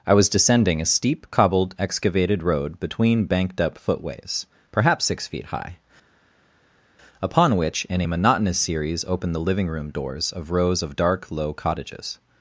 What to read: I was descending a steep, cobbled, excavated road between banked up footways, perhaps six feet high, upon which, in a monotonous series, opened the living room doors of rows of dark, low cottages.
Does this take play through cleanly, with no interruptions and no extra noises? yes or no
yes